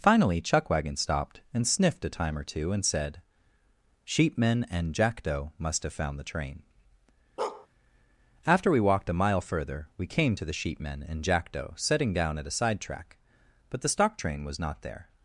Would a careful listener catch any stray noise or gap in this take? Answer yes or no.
yes